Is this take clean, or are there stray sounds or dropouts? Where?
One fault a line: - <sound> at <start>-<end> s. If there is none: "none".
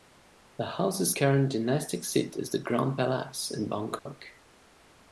- dropout at 4.0-4.1 s